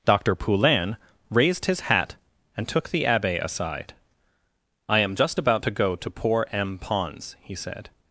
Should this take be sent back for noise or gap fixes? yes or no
no